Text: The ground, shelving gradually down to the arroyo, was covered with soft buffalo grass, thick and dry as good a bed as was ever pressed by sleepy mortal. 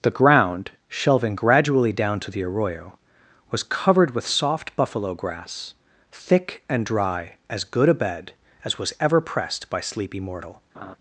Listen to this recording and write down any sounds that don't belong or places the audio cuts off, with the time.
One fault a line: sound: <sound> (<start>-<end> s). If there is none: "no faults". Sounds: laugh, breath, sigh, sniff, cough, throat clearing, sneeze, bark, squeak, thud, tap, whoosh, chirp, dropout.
sound: laugh (10.7-11.0 s)